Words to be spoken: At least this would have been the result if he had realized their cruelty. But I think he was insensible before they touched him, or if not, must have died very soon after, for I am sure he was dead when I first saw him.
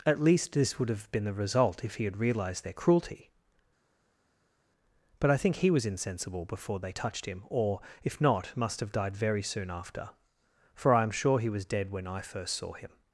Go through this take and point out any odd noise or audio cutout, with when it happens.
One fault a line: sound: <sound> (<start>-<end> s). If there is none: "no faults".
no faults